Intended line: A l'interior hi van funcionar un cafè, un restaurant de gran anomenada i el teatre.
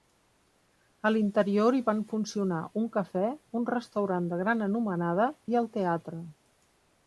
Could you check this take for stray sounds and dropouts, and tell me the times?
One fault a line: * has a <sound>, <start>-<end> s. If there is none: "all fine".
all fine